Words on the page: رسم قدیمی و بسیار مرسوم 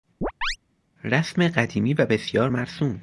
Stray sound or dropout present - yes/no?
yes